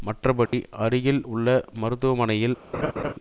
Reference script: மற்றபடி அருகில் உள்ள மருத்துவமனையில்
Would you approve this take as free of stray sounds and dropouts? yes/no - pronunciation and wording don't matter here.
no